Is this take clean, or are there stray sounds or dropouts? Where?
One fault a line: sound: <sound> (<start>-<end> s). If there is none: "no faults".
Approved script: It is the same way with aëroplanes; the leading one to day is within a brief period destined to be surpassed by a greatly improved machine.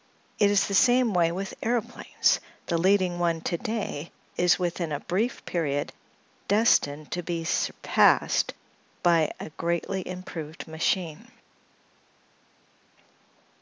no faults